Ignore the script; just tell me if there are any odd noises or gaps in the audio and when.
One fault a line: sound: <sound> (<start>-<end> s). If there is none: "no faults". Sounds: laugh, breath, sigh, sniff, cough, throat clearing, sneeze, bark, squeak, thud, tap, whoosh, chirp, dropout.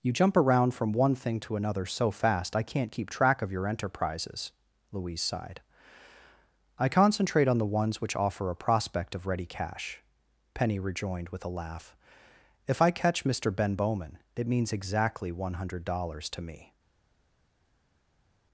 no faults